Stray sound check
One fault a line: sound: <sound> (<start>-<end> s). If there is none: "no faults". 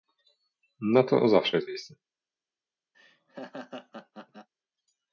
sound: laugh (2.9-4.5 s)